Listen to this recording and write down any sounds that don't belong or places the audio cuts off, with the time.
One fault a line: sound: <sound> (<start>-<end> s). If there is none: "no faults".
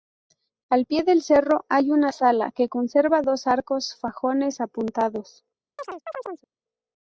sound: chirp (5.8-6.5 s)